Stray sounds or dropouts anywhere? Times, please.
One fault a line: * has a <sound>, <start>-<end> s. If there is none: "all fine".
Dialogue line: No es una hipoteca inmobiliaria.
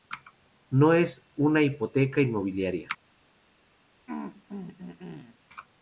* has a throat clearing, 4.1-5.4 s